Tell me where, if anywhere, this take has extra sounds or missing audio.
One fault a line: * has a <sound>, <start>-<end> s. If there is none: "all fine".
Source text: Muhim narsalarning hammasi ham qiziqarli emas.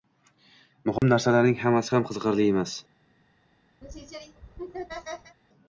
* has a dropout, 1.0-1.0 s
* has a laugh, 3.8-5.4 s